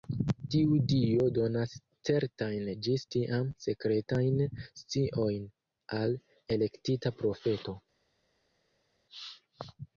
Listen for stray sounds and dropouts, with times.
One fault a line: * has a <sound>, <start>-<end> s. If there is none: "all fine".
all fine